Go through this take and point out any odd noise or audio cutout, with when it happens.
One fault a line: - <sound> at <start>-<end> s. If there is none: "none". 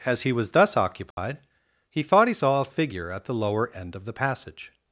- dropout at 1.1-1.2 s